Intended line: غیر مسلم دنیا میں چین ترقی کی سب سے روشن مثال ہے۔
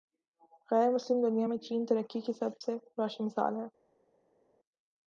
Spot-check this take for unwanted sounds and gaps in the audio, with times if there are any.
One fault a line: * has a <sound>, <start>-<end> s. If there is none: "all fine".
all fine